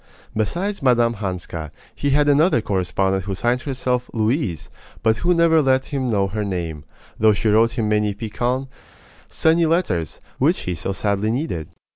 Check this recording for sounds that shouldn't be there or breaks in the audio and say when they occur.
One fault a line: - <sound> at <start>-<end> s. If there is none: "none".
none